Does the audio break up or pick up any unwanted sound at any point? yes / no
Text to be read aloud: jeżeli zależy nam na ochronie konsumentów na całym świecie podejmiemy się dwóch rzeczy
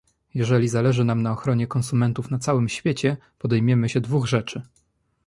no